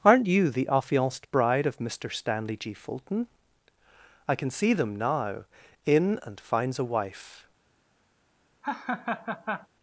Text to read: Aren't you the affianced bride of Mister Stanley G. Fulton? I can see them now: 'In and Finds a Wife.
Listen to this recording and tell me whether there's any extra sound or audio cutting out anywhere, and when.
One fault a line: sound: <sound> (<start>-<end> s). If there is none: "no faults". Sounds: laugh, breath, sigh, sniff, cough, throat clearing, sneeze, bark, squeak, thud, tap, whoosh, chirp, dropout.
sound: laugh (8.6-9.7 s)